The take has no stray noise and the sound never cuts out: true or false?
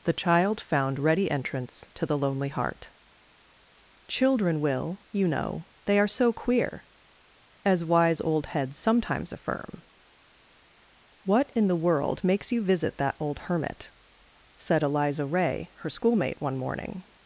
true